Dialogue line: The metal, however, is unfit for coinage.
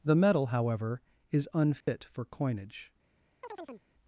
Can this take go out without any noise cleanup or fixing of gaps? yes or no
no